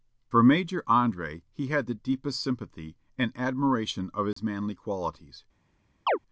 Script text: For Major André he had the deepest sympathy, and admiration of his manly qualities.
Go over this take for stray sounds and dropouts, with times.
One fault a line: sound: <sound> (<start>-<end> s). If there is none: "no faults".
sound: dropout (4.3-4.4 s)
sound: chirp (6.1-6.2 s)